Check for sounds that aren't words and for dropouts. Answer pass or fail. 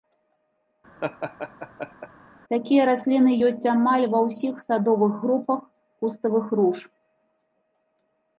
fail